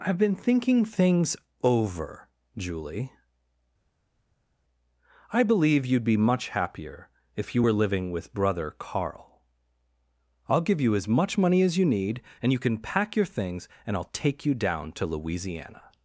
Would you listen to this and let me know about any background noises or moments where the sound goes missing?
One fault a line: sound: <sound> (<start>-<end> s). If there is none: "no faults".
no faults